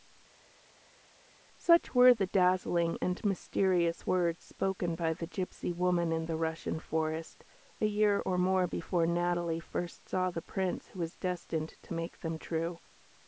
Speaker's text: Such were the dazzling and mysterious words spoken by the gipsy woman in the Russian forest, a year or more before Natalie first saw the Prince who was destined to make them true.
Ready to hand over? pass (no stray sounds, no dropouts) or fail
pass